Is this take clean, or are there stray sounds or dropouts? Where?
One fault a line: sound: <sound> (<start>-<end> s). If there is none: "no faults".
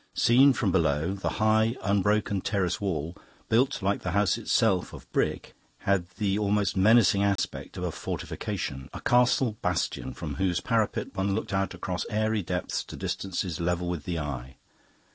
sound: dropout (7.4-7.4 s)